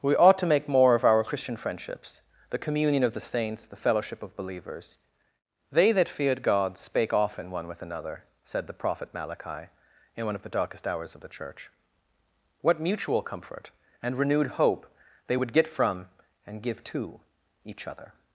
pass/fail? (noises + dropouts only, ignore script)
pass